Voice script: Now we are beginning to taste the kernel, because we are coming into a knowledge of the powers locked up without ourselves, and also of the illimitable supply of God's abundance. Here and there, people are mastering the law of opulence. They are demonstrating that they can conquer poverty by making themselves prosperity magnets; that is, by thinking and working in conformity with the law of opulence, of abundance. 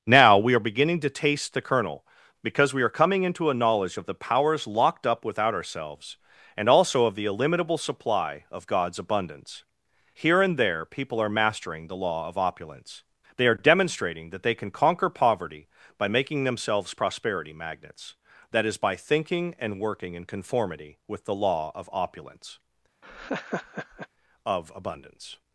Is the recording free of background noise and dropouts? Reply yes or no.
no